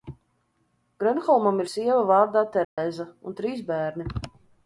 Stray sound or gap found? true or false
true